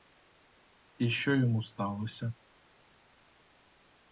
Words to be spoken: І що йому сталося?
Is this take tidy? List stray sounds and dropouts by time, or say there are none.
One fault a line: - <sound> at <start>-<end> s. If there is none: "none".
none